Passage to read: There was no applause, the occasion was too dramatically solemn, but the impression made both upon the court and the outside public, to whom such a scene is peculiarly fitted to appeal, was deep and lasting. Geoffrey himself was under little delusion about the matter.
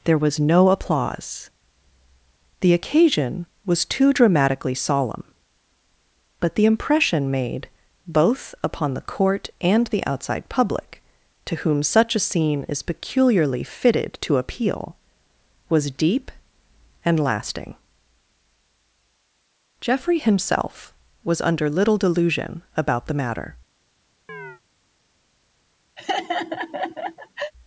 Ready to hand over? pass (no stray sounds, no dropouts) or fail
fail